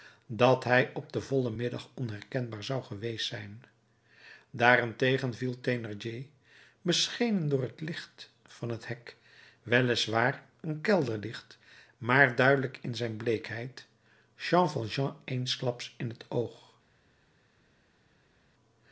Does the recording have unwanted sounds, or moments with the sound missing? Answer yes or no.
no